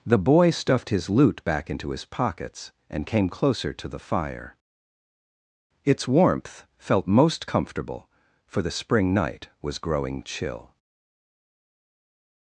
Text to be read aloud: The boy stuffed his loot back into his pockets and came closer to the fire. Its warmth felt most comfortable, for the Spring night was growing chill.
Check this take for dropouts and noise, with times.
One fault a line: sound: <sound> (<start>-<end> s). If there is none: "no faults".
no faults